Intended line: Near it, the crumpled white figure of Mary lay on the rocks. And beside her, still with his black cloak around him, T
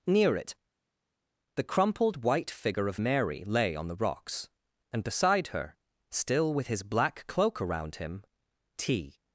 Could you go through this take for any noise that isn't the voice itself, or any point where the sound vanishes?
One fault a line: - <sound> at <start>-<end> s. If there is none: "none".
none